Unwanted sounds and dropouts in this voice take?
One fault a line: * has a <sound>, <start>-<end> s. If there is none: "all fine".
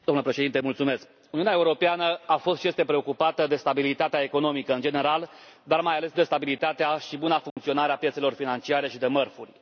* has a dropout, 7.5-7.6 s